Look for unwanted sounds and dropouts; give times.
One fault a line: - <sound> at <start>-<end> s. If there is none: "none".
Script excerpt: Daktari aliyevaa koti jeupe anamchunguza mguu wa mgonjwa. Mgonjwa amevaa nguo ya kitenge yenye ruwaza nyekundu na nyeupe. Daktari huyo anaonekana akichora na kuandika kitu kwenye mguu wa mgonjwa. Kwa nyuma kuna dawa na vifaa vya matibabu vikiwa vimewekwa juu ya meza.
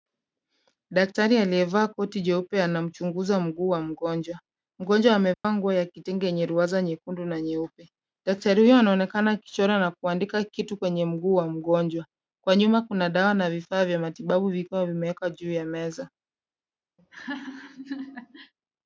- dropout at 5.3-5.4 s
- laugh at 17.0-18.5 s